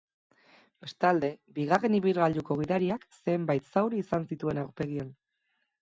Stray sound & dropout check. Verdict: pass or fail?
pass